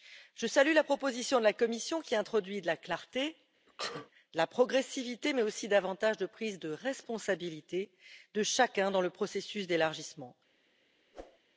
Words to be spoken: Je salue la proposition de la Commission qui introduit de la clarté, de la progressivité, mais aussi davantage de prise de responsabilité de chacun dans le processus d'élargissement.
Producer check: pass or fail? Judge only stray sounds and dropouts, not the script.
fail